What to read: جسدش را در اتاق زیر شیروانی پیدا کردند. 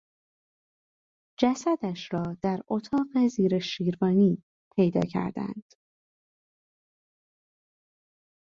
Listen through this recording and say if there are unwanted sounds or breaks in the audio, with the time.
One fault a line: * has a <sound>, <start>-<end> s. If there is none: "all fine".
all fine